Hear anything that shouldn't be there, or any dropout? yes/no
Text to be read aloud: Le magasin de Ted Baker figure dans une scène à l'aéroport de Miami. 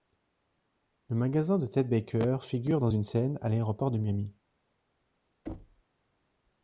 yes